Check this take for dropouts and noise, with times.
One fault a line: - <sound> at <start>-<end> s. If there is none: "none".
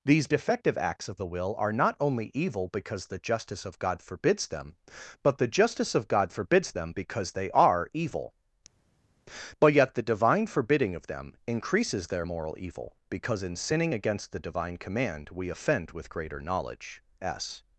none